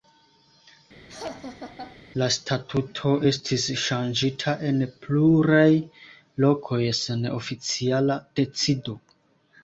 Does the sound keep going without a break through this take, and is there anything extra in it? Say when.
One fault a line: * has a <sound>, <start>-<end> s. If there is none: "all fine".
* has a laugh, 1.1-2.0 s